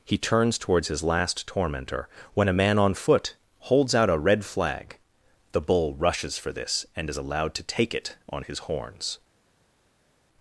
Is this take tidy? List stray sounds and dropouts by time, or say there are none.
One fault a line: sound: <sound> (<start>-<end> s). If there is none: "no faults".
no faults